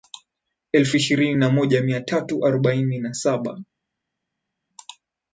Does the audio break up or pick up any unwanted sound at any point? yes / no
no